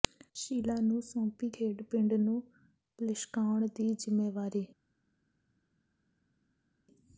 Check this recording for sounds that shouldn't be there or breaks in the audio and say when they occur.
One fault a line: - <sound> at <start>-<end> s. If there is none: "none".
none